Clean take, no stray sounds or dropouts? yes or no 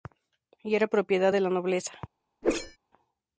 no